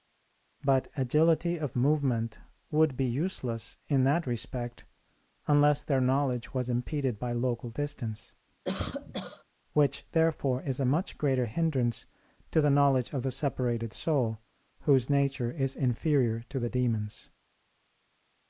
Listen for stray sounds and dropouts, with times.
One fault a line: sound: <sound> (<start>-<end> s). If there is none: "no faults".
sound: cough (8.6-9.4 s)